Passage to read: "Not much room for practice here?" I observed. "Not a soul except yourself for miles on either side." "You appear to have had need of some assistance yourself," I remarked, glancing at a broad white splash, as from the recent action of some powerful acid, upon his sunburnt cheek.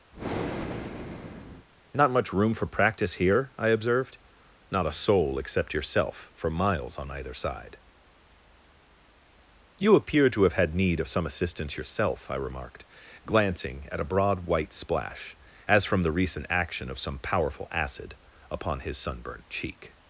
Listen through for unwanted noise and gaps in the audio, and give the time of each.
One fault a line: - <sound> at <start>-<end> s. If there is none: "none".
- breath at 0.1-1.7 s